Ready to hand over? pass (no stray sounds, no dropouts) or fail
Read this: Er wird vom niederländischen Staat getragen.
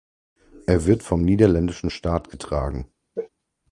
fail